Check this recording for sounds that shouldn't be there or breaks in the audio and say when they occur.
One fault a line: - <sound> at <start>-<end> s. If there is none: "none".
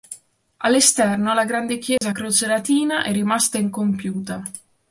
- dropout at 2.0-2.0 s